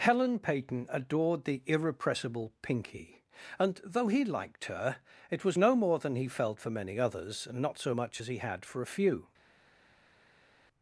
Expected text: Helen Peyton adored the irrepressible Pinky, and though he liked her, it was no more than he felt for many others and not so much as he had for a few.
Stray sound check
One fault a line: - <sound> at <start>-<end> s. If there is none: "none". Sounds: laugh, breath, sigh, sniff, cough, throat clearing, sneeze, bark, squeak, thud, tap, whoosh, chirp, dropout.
none